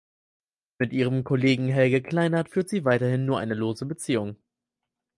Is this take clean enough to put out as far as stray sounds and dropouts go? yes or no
yes